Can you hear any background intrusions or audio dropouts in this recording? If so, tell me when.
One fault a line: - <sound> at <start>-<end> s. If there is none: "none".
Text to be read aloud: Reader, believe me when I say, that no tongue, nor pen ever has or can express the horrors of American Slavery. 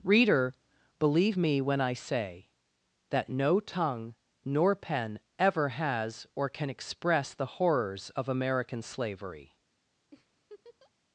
- laugh at 10.1-10.9 s